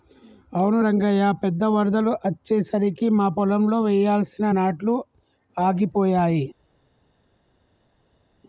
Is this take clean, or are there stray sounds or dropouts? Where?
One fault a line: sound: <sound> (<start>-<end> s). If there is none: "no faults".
no faults